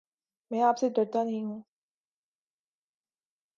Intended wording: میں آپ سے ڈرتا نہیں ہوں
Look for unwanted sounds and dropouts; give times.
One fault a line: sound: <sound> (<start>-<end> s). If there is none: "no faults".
no faults